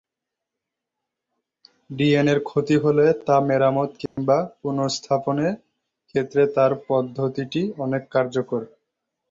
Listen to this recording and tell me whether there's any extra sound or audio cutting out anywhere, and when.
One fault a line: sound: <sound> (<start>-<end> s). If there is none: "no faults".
sound: dropout (4.1-4.2 s)